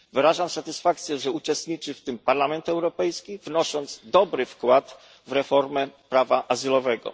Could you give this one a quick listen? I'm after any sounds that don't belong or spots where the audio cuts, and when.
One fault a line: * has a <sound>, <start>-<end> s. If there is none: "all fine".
all fine